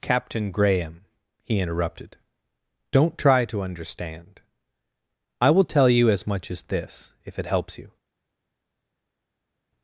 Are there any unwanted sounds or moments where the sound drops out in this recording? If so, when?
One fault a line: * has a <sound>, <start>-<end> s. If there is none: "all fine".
all fine